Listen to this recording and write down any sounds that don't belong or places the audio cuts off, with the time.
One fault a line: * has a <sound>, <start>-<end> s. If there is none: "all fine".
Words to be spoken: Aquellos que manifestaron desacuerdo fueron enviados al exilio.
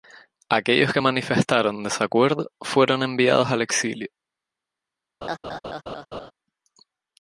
* has a laugh, 5.2-6.3 s